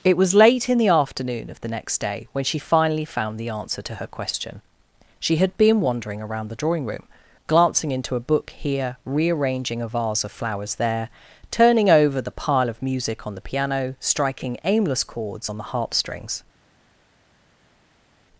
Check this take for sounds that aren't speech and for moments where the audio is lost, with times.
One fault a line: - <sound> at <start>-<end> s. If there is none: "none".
none